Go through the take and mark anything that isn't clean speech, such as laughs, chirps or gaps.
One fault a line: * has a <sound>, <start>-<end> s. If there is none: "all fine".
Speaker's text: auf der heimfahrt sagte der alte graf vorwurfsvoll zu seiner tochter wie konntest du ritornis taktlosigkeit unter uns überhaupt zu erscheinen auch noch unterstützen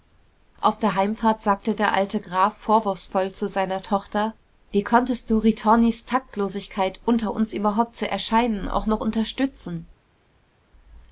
all fine